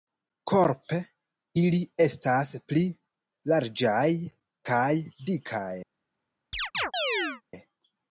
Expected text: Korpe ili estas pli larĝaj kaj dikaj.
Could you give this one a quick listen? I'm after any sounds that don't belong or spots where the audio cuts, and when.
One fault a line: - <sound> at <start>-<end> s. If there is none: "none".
- chirp at 6.5-7.4 s